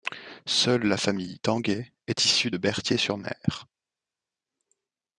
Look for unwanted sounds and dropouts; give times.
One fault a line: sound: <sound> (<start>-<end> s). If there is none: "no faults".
no faults